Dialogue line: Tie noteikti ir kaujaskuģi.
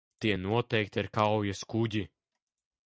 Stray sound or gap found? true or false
false